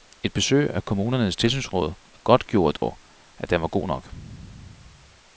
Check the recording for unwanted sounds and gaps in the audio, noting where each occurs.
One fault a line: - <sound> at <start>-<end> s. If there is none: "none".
- dropout at 2.8-2.8 s